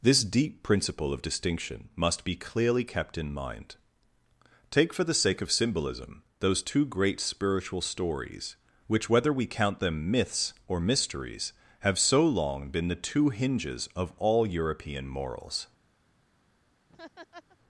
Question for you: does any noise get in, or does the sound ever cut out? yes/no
yes